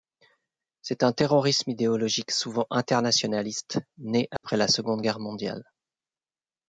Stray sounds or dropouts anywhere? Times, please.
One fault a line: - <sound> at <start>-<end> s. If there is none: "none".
- dropout at 4.4-4.4 s